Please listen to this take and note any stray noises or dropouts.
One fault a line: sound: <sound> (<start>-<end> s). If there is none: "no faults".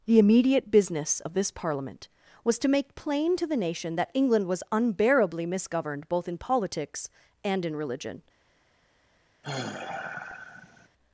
sound: sigh (9.4-10.9 s)